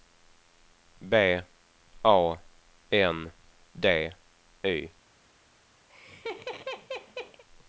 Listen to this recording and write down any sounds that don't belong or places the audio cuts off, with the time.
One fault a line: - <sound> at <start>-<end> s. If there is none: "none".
- laugh at 5.9-7.4 s